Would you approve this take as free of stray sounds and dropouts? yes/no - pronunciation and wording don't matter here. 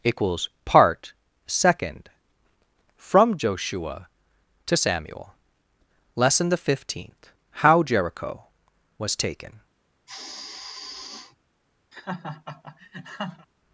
no